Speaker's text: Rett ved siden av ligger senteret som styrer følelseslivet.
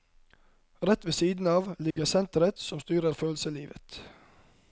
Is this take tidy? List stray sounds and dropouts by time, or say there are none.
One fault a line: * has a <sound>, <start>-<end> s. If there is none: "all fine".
* has a dropout, 1.9-2.0 s